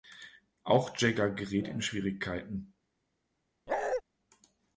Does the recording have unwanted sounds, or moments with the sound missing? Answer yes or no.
yes